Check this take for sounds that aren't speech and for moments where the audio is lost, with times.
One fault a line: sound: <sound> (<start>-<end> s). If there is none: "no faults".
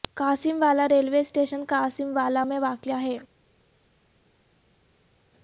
no faults